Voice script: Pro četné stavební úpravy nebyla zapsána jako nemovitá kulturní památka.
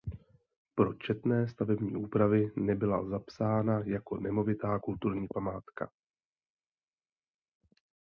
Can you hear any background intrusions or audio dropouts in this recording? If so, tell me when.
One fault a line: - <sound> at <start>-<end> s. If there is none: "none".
none